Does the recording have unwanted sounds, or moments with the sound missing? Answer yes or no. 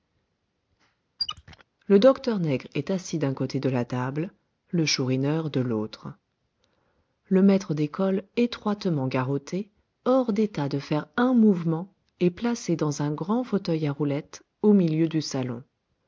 yes